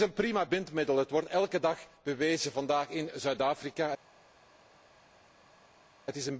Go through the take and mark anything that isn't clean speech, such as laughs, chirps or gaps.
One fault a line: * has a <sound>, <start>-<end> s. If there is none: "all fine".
all fine